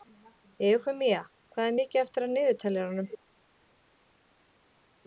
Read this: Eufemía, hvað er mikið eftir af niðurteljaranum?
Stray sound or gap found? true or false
false